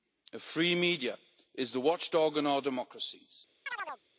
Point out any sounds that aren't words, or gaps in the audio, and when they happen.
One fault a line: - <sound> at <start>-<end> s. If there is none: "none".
- chirp at 3.7-4.0 s